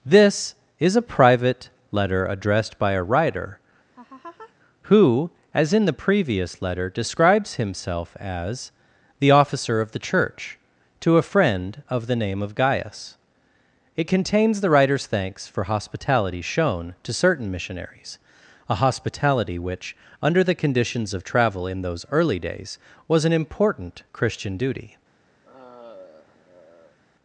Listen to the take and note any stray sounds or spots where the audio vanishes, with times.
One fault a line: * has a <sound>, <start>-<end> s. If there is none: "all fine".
* has a laugh, 3.9-4.5 s
* has a sigh, 25.4-27.0 s